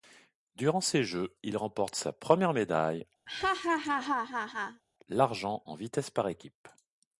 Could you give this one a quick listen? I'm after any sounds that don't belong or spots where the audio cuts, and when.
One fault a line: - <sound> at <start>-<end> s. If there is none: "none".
- laugh at 3.3-4.8 s